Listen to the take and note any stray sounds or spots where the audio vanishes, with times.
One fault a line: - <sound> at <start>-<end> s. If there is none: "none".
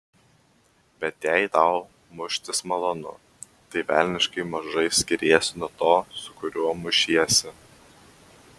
none